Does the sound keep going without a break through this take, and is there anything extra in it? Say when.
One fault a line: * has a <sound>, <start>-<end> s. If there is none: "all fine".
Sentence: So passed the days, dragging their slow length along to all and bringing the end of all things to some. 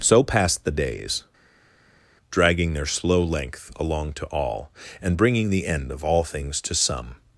all fine